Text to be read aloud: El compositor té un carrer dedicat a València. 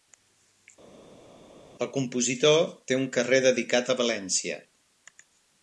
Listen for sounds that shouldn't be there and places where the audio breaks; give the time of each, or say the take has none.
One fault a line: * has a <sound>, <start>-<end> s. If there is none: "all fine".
all fine